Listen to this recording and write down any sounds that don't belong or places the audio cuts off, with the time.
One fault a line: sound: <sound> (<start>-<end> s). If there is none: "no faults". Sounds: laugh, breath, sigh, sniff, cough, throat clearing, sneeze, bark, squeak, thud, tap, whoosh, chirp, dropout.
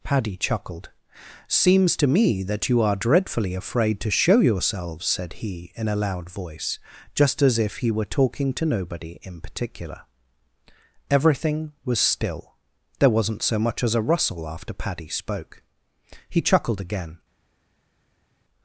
no faults